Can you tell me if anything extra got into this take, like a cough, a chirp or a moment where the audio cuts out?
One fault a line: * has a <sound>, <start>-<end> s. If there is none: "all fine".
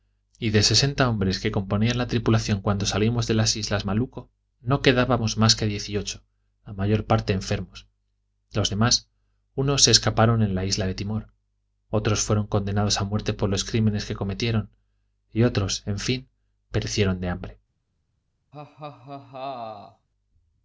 * has a laugh, 18.5-20.1 s